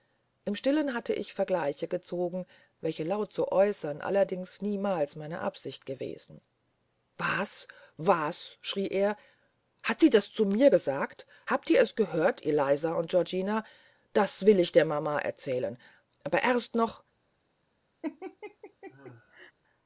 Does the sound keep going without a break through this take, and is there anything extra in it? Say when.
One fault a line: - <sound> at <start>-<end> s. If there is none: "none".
- laugh at 18.0-19.5 s